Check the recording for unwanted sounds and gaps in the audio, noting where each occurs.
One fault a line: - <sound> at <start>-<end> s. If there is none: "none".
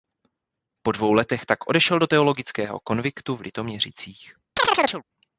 - chirp at 4.6-5.0 s